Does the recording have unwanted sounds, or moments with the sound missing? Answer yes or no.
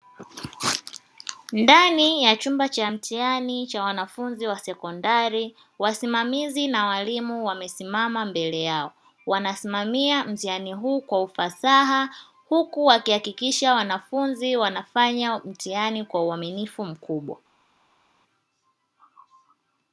no